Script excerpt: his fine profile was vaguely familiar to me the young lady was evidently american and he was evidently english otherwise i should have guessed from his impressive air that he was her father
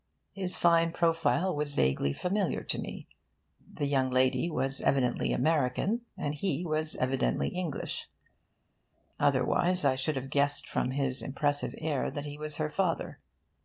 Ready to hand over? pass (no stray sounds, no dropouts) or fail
pass